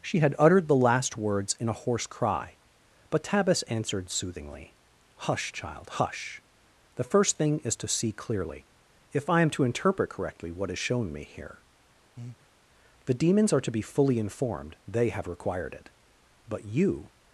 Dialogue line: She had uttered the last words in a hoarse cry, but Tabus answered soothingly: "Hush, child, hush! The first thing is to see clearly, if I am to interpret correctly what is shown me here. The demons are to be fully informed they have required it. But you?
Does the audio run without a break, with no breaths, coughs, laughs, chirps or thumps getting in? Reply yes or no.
no